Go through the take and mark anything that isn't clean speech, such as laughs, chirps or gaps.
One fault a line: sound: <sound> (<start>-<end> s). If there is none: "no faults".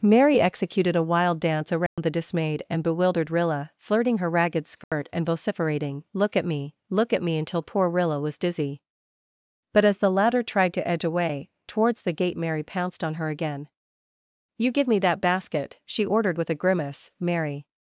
sound: dropout (1.9-2.0 s)
sound: dropout (4.8-4.9 s)